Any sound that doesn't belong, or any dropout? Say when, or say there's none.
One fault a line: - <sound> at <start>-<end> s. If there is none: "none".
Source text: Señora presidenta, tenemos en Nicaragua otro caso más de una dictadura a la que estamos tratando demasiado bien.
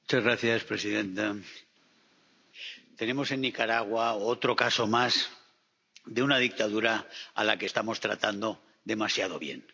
none